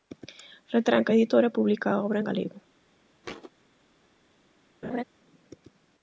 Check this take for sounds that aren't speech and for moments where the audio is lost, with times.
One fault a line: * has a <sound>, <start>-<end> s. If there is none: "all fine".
* has a thud, 3.2-3.5 s
* has a laugh, 4.8-5.0 s